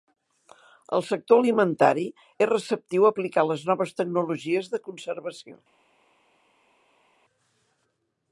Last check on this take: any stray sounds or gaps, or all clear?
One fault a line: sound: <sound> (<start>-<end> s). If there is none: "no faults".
no faults